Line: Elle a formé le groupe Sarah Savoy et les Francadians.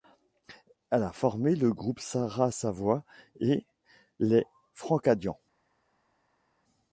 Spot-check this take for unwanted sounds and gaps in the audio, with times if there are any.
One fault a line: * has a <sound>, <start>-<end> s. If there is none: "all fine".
all fine